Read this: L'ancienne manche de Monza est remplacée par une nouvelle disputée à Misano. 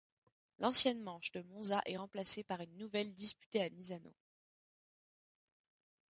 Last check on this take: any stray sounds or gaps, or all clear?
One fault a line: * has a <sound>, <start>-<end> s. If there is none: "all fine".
all fine